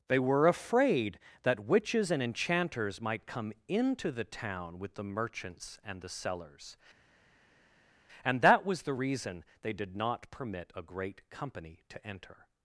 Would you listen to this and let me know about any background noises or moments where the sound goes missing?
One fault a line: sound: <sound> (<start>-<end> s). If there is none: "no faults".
no faults